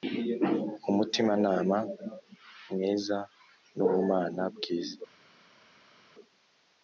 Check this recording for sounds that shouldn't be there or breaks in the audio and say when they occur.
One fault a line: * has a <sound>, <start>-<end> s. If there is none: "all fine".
all fine